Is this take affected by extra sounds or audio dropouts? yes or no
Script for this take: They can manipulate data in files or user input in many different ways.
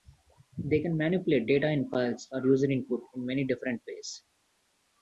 no